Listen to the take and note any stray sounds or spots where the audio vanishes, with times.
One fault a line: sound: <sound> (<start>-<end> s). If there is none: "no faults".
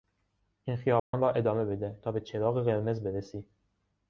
sound: dropout (1.0-1.1 s)